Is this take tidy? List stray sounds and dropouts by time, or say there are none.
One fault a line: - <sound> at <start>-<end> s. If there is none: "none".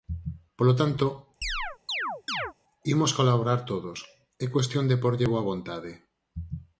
- chirp at 1.4-2.5 s